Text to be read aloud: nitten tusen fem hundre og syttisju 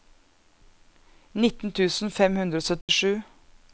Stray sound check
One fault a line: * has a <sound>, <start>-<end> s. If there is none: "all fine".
* has a dropout, 2.8-2.9 s